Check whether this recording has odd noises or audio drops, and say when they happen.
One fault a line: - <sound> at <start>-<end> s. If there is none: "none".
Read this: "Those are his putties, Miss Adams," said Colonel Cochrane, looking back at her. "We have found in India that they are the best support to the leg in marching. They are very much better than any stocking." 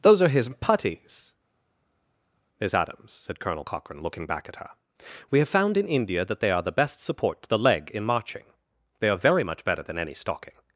none